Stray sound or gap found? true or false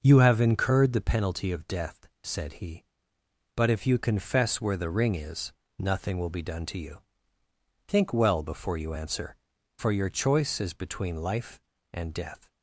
false